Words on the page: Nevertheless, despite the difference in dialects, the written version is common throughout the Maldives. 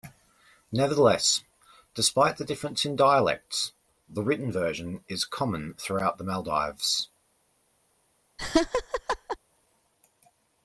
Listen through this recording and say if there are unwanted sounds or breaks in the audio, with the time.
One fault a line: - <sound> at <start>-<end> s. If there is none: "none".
- laugh at 8.4-9.4 s